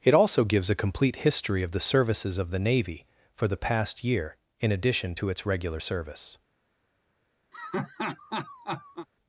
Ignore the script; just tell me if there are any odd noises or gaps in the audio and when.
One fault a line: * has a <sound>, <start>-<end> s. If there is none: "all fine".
* has a laugh, 7.5-9.1 s